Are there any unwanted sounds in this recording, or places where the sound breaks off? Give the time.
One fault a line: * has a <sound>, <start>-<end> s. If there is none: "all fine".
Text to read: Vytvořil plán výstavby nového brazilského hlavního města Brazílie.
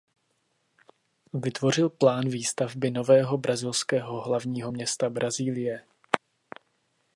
all fine